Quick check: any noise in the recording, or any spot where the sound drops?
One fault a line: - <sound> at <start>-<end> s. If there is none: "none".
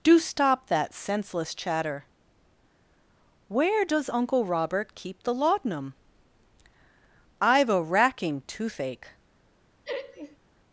- laugh at 9.8-10.4 s